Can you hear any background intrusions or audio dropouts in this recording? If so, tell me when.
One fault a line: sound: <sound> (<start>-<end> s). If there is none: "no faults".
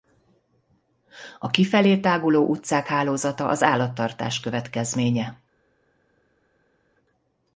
no faults